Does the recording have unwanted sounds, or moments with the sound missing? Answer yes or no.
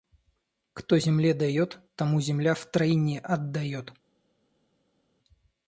no